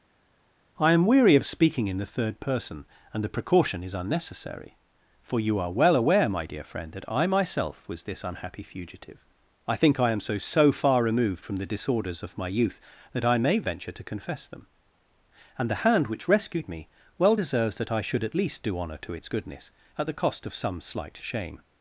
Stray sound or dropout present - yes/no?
no